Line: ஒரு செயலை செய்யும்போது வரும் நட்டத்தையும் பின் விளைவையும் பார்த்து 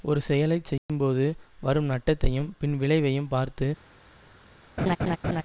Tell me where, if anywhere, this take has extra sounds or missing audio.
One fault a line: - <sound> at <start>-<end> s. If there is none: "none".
- dropout at 0.8-0.9 s
- laugh at 4.8-5.4 s